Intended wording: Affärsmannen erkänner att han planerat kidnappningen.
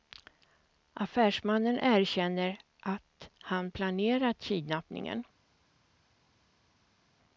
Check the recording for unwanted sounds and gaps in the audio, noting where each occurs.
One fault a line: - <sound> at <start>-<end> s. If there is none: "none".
none